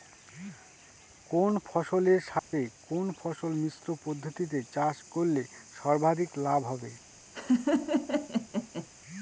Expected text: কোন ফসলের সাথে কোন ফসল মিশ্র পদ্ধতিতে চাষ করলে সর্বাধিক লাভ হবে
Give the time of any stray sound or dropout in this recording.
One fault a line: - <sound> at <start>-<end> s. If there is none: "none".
- dropout at 2.4-2.5 s
- laugh at 7.3-8.9 s